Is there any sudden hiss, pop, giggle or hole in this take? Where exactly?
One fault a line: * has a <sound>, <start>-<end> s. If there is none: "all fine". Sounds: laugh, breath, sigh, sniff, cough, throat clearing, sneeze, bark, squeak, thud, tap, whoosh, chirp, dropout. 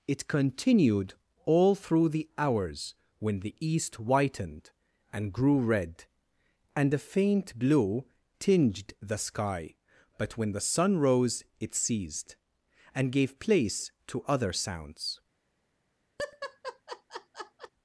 * has a laugh, 16.2-17.7 s